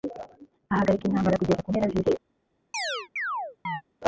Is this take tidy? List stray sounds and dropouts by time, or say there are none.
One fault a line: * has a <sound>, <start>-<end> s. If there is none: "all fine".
* has a chirp, 2.7-3.8 s